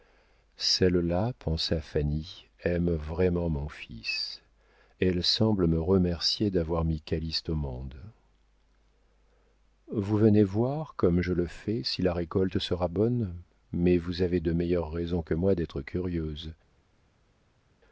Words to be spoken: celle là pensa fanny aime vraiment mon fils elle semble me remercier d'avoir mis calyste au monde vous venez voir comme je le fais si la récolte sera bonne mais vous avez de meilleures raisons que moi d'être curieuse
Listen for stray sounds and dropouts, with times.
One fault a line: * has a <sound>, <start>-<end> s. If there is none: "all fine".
all fine